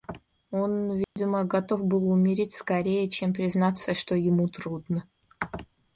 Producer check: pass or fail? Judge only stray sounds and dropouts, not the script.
fail